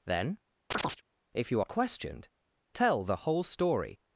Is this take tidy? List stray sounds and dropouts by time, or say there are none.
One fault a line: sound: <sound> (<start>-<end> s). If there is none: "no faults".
sound: chirp (0.7-1.0 s)